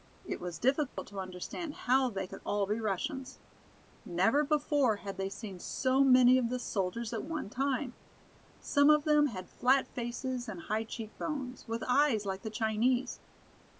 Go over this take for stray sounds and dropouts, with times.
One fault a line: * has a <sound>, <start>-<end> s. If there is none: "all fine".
* has a dropout, 0.9-1.0 s